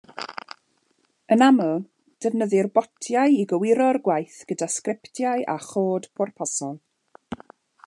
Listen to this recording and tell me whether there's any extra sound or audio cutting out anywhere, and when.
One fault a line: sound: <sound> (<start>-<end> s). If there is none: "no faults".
no faults